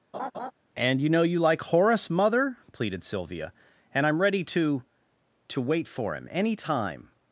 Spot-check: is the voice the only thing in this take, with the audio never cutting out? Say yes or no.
no